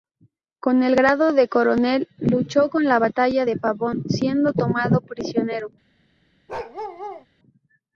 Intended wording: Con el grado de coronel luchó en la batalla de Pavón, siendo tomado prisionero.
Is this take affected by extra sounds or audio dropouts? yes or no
yes